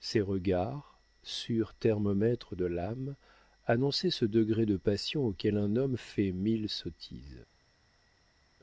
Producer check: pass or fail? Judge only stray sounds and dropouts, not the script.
pass